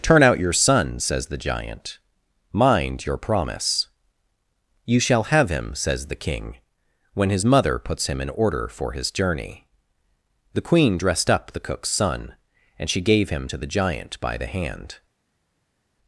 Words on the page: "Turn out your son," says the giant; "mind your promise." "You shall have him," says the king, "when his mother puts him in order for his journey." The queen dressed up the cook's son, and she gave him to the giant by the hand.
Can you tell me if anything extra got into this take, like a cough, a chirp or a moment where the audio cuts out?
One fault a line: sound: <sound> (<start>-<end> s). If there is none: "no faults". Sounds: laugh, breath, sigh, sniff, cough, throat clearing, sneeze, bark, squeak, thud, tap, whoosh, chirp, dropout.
no faults